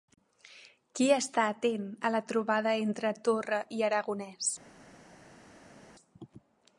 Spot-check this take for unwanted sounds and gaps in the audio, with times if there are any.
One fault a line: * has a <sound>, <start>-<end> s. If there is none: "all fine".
all fine